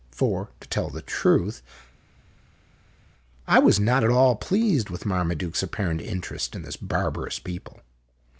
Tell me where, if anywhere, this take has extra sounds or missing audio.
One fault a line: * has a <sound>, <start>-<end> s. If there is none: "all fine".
all fine